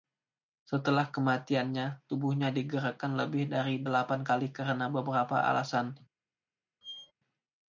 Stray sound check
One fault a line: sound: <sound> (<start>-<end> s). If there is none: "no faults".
sound: squeak (6.8-7.1 s)